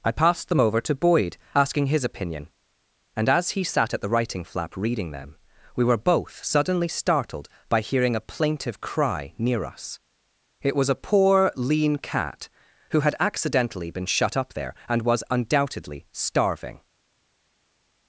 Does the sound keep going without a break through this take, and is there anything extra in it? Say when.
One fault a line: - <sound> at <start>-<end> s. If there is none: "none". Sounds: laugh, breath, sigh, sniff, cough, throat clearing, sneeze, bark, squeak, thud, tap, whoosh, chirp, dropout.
none